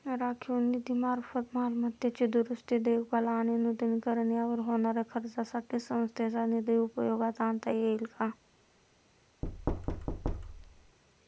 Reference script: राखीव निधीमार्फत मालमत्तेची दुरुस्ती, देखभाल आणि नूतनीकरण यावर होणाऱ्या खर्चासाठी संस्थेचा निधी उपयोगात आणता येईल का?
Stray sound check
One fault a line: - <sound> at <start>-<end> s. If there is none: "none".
- thud at 9.4-11.0 s